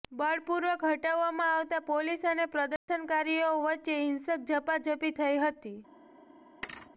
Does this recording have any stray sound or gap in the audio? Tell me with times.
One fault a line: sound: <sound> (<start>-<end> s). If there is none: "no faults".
sound: dropout (2.8-2.9 s)
sound: thud (6.6-6.9 s)